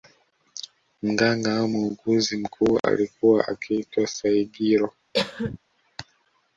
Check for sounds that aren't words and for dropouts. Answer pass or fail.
fail